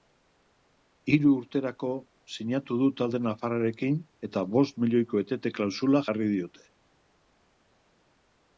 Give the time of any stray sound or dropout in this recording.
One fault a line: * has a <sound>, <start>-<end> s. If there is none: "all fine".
all fine